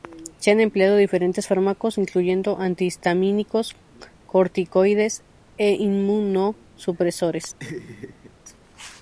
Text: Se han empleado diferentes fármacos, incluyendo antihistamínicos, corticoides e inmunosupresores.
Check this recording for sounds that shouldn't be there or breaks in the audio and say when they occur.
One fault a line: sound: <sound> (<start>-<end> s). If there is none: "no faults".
sound: laugh (7.6-8.3 s)